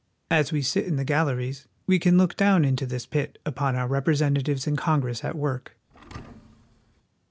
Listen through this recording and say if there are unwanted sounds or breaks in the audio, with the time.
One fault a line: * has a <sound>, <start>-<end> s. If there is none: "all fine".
* has a thud, 5.9-7.0 s